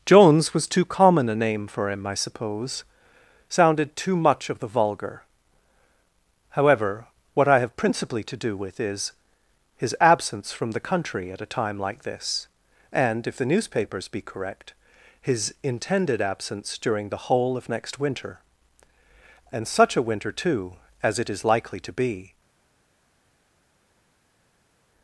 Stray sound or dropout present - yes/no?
no